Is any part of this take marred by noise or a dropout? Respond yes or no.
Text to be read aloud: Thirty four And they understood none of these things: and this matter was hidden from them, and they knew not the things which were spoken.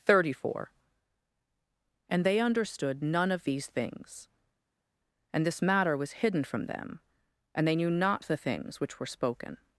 no